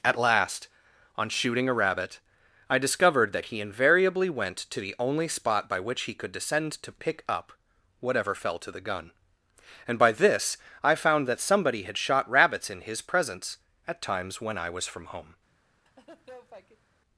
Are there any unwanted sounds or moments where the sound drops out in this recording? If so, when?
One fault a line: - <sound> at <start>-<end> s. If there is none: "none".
- laugh at 15.9-16.9 s